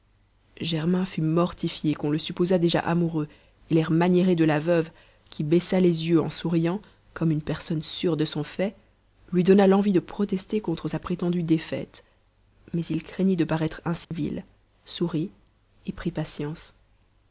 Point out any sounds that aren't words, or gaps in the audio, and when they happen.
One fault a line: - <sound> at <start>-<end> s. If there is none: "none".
- dropout at 14.0-14.1 s